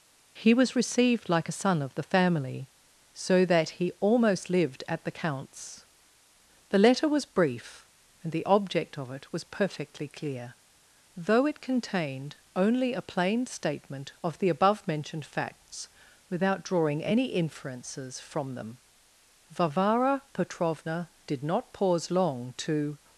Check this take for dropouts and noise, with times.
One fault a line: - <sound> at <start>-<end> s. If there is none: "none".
none